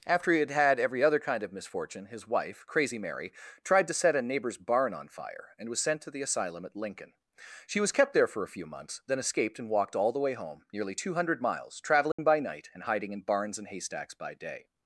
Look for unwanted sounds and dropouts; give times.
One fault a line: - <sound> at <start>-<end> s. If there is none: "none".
- dropout at 12.1-12.2 s